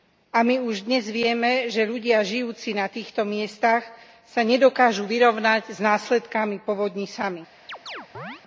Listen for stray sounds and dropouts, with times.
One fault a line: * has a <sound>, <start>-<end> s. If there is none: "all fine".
* has a chirp, 7.7-8.4 s